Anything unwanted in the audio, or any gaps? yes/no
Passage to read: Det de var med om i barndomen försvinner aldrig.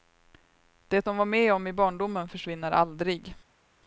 no